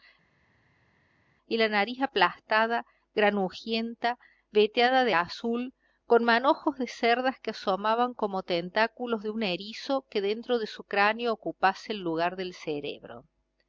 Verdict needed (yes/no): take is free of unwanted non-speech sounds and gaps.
yes